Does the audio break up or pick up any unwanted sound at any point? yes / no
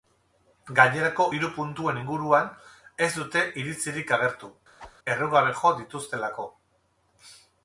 yes